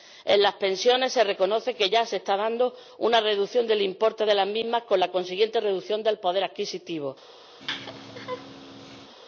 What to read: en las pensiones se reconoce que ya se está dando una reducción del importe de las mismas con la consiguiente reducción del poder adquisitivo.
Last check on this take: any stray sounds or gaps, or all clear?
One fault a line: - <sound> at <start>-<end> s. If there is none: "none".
- laugh at 7.6-9.1 s